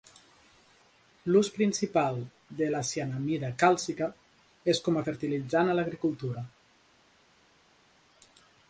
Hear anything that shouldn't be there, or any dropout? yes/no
no